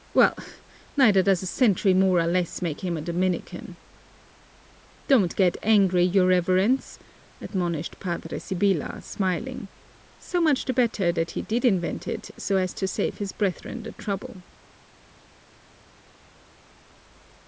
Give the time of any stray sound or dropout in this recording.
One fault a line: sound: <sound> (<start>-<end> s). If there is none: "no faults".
no faults